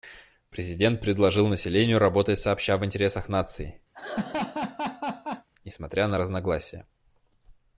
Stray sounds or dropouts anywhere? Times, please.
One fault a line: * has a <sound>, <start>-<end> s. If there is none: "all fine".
* has a laugh, 3.9-5.5 s